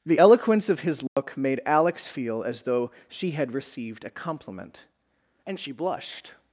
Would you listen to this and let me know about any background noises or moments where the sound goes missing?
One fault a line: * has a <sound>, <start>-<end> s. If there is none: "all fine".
* has a dropout, 1.1-1.2 s